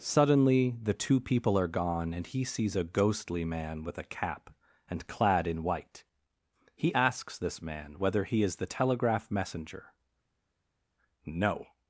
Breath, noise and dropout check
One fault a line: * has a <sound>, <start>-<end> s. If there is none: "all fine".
all fine